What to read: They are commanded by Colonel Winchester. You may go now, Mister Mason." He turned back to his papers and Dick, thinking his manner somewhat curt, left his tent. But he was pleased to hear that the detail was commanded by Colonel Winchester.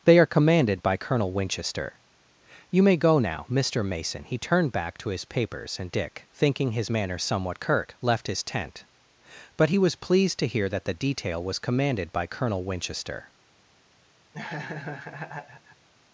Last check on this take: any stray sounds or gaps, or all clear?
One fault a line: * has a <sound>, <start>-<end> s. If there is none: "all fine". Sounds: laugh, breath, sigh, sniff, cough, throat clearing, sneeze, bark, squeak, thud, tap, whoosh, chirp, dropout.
* has a laugh, 14.3-15.9 s